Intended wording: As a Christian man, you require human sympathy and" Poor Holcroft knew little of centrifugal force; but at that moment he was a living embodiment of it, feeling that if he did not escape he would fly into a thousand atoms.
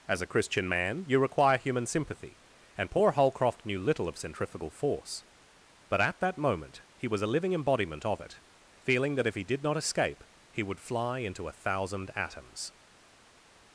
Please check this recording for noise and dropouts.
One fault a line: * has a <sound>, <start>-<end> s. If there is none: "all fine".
all fine